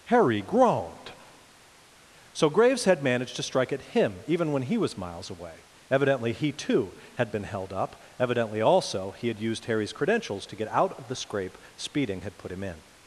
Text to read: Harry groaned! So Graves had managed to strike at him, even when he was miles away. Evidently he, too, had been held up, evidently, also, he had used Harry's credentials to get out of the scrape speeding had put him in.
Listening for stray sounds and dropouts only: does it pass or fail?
pass